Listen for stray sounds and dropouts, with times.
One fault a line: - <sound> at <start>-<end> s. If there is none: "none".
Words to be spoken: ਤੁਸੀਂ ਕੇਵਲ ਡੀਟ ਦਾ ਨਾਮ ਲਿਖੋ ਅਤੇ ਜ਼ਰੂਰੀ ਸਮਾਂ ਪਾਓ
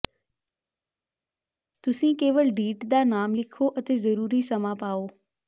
none